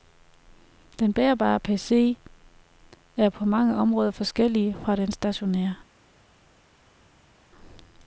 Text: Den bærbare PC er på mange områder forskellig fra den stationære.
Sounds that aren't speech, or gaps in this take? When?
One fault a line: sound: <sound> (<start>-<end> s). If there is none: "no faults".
no faults